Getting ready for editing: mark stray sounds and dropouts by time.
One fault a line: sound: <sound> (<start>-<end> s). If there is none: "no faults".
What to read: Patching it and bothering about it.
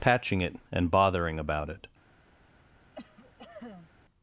sound: cough (2.9-3.9 s)